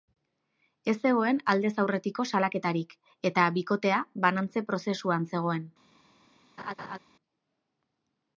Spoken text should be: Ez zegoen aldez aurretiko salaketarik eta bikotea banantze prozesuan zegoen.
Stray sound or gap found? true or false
true